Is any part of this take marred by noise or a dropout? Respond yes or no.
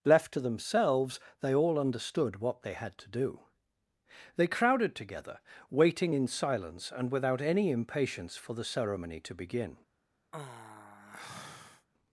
yes